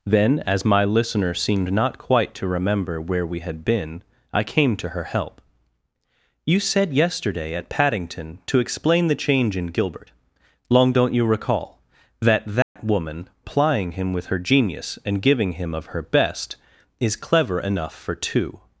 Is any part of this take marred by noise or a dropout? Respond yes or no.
yes